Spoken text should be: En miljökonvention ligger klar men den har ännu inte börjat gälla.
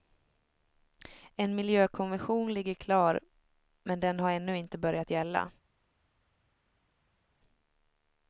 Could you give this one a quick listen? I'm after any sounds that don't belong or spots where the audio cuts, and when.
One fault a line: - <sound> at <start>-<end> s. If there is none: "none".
none